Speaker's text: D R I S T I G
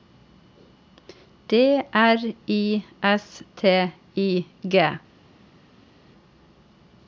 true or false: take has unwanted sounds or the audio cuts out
false